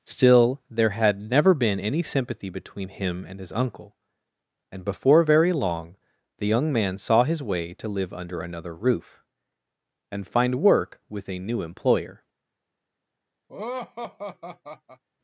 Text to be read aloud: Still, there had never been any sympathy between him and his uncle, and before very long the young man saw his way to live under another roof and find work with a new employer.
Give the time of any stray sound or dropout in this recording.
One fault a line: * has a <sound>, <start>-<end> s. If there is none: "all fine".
* has a laugh, 13.5-15.0 s